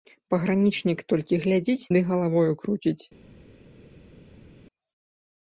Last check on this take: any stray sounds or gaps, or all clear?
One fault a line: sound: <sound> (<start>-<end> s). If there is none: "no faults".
no faults